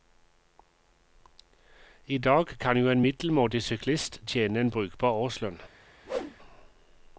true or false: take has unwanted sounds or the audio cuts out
true